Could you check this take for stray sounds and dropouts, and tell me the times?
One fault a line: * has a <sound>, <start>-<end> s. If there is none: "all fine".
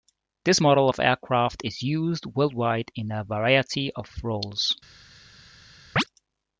* has a chirp, 6.0-6.0 s